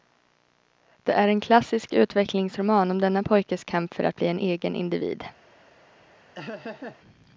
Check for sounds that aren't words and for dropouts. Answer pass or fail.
fail